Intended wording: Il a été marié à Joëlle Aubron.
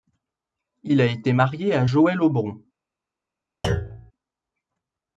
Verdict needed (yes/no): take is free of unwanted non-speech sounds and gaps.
no